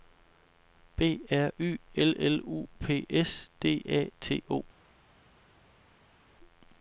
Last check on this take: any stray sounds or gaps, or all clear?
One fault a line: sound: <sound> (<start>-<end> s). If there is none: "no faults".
no faults